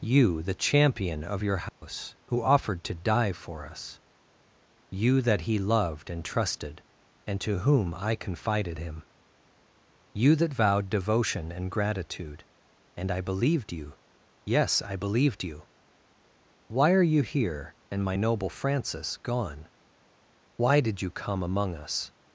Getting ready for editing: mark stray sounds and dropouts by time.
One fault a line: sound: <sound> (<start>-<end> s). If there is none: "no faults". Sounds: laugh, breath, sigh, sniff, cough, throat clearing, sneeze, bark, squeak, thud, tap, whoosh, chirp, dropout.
sound: dropout (1.7-1.8 s)